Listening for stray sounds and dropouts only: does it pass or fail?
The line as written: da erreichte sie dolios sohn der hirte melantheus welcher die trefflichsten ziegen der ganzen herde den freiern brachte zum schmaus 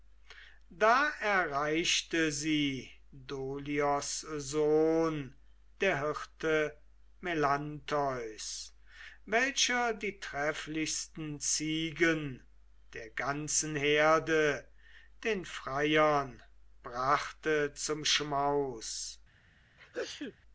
fail